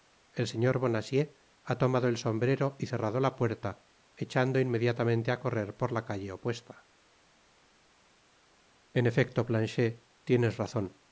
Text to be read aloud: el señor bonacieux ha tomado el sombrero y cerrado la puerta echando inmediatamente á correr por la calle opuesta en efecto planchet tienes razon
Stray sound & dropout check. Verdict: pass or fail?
pass